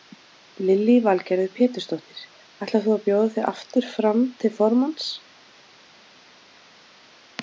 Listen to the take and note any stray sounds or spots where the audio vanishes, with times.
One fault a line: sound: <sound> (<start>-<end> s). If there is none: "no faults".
no faults